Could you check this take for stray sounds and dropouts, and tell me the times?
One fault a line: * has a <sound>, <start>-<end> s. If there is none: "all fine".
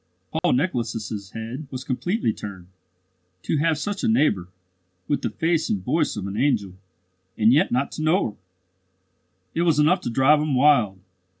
* has a dropout, 0.4-0.4 s